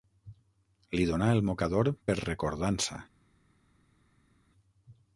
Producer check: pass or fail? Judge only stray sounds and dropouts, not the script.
pass